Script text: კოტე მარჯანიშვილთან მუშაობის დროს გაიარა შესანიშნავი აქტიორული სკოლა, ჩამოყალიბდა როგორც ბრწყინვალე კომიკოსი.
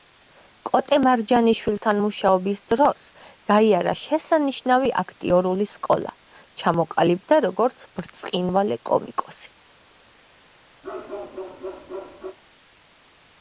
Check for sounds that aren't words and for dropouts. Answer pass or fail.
fail